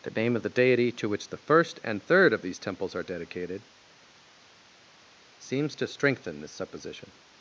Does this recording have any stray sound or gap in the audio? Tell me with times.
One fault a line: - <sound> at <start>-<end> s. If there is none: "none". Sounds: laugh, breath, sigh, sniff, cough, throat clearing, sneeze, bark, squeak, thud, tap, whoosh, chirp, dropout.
none